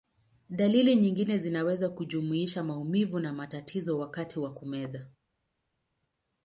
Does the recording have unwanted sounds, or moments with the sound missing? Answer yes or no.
no